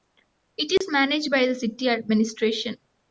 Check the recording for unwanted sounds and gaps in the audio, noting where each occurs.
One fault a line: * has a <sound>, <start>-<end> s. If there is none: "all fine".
* has a dropout, 0.8-0.8 s